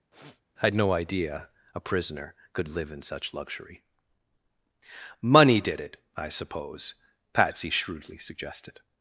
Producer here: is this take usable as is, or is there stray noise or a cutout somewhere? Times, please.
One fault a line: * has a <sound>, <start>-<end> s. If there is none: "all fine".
* has a sniff, 0.1-0.4 s